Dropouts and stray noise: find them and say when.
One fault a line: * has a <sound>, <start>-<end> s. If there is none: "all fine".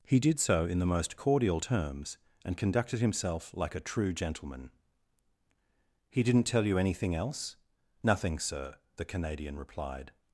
all fine